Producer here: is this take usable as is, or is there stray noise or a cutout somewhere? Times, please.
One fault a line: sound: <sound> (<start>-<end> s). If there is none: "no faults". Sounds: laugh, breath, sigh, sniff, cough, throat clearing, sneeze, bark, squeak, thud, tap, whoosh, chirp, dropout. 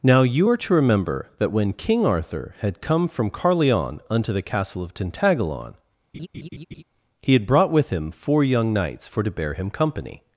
sound: laugh (6.1-6.8 s)